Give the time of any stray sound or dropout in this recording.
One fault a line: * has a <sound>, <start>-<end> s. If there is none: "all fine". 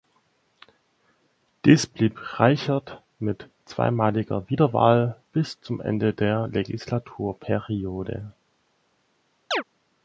* has a chirp, 9.5-9.6 s